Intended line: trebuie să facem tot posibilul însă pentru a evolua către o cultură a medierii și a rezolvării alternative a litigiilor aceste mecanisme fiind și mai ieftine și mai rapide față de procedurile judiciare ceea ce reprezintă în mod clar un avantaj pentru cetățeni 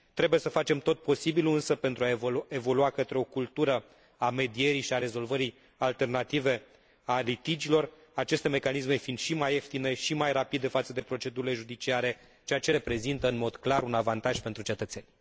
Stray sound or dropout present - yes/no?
no